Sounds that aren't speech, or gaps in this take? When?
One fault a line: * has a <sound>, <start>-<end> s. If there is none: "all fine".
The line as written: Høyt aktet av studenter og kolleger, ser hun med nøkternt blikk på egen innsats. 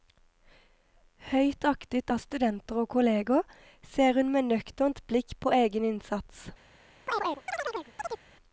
* has a chirp, 7.1-8.2 s